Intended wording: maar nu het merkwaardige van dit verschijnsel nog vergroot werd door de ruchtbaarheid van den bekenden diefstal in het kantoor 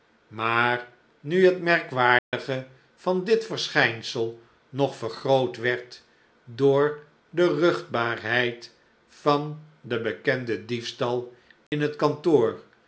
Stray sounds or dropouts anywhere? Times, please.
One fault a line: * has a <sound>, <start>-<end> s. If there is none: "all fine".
* has a dropout, 2.2-2.3 s
* has a dropout, 11.7-11.7 s